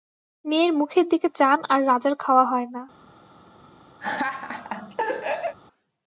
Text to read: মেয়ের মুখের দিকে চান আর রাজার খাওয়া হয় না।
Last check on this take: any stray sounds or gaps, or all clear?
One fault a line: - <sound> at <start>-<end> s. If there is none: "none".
- laugh at 4.0-5.6 s